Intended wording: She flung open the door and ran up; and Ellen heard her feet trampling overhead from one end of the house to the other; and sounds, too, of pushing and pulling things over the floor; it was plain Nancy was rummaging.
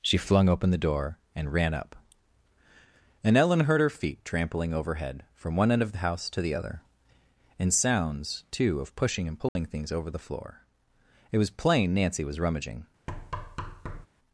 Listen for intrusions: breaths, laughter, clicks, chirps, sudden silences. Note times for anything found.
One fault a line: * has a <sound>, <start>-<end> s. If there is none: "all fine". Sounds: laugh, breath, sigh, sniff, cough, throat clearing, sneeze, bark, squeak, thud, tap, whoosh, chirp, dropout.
* has a dropout, 9.5-9.6 s
* has a thud, 13.1-14.1 s